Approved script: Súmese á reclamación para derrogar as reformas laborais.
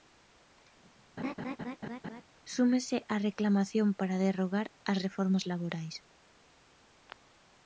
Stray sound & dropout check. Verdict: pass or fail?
fail